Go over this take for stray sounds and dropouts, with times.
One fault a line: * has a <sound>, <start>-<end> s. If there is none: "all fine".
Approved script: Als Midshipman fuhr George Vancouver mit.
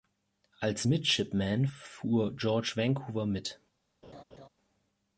* has a laugh, 4.0-4.5 s